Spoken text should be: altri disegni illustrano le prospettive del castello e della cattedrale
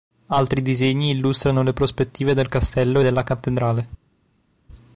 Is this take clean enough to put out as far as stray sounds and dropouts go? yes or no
yes